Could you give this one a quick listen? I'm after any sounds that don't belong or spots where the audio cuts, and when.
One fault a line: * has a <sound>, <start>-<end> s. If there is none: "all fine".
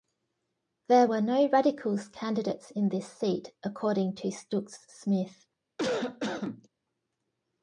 * has a cough, 5.8-6.7 s